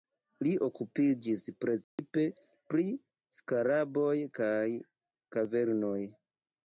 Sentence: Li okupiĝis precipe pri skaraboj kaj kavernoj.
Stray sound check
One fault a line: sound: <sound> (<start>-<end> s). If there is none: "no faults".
sound: dropout (1.8-2.0 s)